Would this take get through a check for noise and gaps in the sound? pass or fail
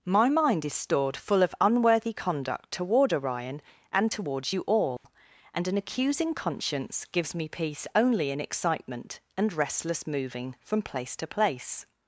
fail